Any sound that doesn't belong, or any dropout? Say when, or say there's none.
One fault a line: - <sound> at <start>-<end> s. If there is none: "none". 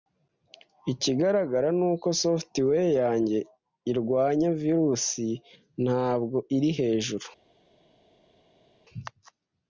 none